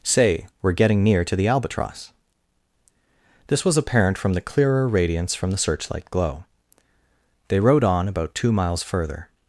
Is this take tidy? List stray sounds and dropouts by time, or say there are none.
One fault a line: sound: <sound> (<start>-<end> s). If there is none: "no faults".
no faults